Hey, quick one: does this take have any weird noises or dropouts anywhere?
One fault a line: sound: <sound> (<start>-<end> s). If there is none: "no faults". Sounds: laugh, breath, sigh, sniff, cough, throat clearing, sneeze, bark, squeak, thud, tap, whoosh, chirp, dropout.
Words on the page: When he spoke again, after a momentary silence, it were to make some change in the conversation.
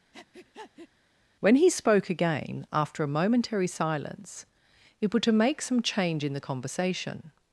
sound: breath (0.1-0.9 s)